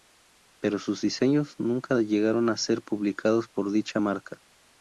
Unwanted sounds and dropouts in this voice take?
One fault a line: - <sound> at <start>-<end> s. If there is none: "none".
none